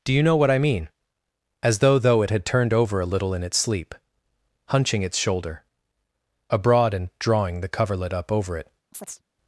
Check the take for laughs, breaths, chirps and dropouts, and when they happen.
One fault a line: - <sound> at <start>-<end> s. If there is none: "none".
- chirp at 8.9-9.2 s